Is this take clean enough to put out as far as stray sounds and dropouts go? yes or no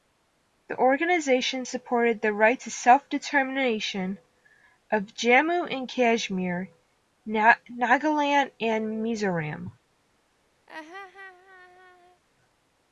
no